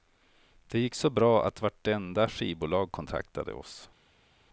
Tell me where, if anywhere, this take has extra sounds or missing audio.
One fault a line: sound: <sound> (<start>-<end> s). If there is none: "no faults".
no faults